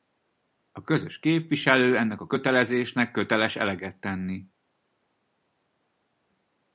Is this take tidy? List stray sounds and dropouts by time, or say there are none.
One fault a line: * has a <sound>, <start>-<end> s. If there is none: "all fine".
all fine